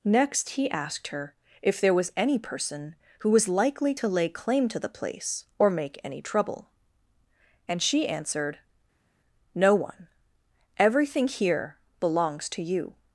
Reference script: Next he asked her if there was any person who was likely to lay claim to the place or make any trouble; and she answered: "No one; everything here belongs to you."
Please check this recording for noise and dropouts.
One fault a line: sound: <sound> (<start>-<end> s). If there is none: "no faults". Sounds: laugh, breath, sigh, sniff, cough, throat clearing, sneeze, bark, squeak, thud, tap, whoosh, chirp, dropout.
no faults